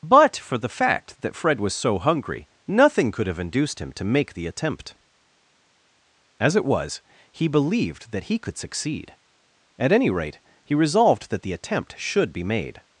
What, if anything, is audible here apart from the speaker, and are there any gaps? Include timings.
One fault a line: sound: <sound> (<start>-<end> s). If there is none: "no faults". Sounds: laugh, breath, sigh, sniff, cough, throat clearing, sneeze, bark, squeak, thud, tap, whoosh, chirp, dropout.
no faults